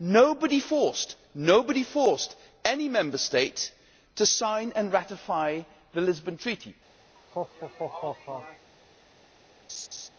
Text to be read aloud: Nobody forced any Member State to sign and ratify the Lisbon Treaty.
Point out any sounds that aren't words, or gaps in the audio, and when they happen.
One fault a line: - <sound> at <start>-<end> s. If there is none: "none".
- laugh at 7.2-8.7 s
- laugh at 9.7-10.1 s